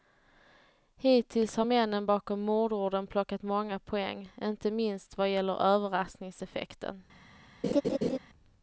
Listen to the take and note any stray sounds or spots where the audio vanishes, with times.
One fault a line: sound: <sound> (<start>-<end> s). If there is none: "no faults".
sound: laugh (7.6-8.2 s)